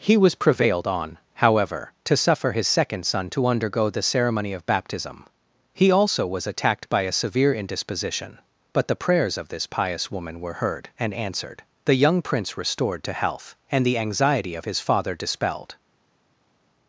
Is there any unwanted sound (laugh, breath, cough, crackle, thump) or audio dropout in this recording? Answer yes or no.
no